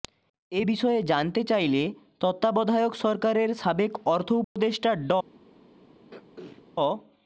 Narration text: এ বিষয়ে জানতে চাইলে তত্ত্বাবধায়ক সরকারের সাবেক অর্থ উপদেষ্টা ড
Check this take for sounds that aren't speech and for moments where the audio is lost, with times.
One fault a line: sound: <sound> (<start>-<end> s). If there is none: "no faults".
sound: dropout (4.4-4.6 s)
sound: throat clearing (6.1-6.6 s)